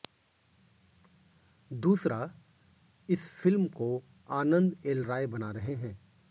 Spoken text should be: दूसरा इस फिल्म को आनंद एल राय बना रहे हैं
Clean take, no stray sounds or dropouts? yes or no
yes